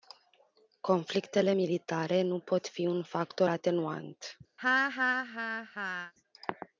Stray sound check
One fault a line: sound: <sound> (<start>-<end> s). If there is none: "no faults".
sound: laugh (4.6-6.1 s)